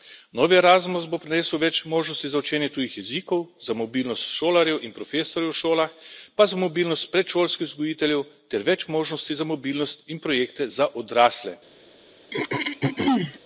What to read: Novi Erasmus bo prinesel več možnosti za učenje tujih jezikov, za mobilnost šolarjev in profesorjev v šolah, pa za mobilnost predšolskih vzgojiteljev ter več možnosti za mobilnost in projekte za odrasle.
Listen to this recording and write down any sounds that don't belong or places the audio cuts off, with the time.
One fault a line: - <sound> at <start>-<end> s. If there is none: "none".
- throat clearing at 12.3-13.4 s